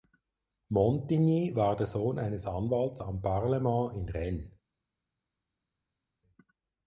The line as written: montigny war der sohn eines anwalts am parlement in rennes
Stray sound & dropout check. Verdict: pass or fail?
pass